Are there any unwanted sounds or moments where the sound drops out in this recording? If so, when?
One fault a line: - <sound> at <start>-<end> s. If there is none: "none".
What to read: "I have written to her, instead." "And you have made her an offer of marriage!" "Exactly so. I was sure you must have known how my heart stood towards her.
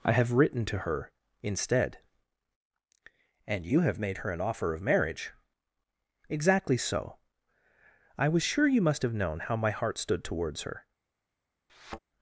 - thud at 11.7-12.0 s